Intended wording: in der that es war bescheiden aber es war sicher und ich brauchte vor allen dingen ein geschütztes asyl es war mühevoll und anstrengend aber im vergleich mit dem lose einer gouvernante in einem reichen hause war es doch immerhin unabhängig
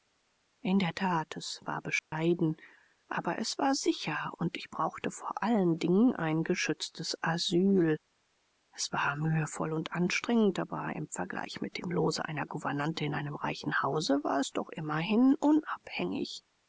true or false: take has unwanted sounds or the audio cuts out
true